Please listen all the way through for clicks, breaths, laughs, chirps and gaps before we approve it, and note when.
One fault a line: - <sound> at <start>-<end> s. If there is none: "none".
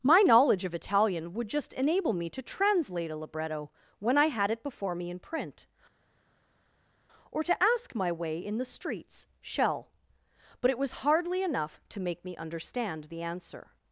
none